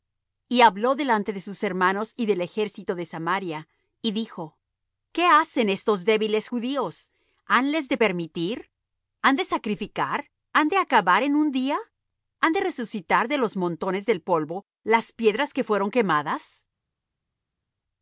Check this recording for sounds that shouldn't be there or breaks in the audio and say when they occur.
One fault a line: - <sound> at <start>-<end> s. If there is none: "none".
none